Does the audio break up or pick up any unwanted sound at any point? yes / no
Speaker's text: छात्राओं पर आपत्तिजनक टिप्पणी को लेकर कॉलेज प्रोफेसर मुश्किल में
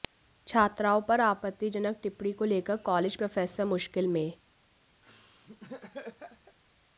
yes